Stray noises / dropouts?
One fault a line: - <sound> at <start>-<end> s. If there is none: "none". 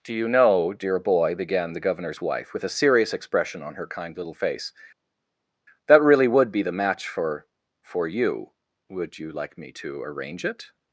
none